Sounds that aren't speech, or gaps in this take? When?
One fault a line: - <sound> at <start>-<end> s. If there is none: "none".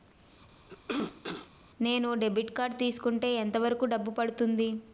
- cough at 0.7-1.5 s